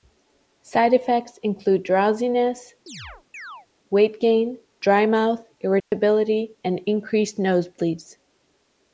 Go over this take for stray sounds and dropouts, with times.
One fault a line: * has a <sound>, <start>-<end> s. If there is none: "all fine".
* has a chirp, 2.9-3.7 s
* has a dropout, 5.8-5.9 s